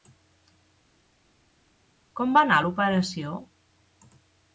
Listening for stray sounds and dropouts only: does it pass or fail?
pass